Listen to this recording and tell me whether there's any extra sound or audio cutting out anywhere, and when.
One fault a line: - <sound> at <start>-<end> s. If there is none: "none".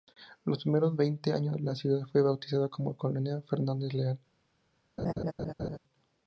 - laugh at 5.0-5.8 s